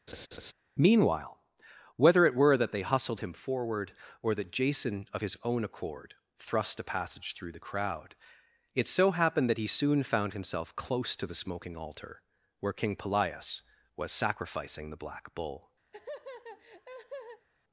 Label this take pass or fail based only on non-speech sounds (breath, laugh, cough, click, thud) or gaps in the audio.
fail